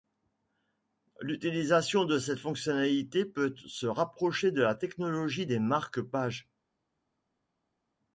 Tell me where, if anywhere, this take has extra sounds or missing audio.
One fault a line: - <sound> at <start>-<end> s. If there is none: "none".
none